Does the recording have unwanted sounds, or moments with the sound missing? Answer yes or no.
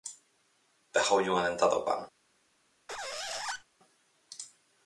yes